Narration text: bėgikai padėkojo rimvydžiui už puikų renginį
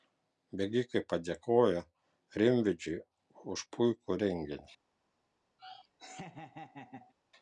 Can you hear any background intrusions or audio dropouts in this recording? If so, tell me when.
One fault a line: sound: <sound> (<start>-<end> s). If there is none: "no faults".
sound: laugh (5.6-7.1 s)